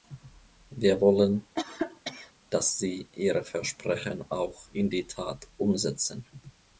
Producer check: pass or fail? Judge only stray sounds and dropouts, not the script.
fail